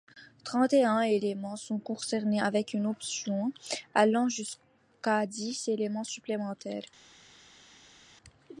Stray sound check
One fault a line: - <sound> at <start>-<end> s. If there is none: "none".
none